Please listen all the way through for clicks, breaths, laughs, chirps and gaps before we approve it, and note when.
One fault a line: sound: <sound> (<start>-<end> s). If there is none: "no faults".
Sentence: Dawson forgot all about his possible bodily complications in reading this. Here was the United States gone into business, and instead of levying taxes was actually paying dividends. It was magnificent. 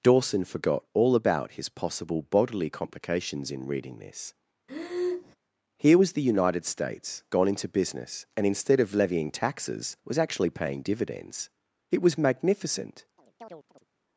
sound: breath (4.7-5.4 s)
sound: chirp (13.2-13.9 s)